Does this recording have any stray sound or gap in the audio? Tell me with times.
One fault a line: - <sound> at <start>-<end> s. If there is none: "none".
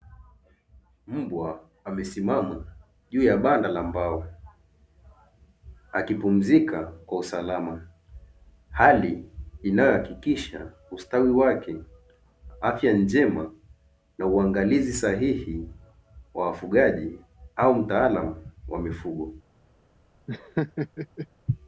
- laugh at 20.3-21.3 s